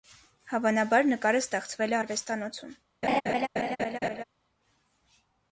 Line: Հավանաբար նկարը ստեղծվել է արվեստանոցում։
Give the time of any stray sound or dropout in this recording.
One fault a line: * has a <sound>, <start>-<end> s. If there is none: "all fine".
* has a laugh, 3.0-4.2 s